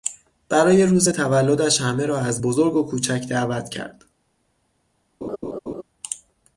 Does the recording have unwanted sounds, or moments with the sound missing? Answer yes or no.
yes